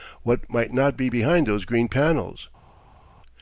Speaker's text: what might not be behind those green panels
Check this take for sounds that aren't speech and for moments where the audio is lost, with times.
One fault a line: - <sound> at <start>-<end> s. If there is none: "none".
none